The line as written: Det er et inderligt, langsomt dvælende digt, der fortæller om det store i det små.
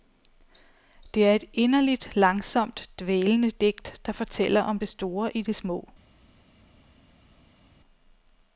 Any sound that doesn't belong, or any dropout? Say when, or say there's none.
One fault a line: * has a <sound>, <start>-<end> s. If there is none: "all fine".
all fine